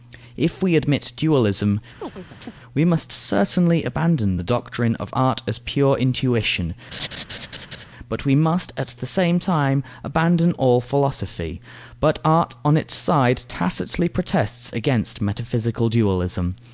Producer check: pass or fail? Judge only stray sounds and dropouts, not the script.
fail